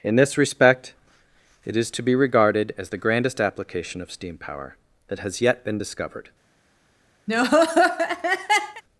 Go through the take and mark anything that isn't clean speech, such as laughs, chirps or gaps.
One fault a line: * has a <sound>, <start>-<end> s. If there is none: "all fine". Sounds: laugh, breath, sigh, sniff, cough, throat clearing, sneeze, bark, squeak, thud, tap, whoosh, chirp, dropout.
* has a laugh, 7.3-8.8 s